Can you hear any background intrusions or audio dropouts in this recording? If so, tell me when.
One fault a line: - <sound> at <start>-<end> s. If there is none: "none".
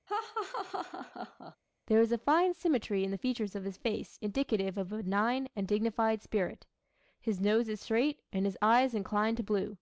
- laugh at 0.1-1.6 s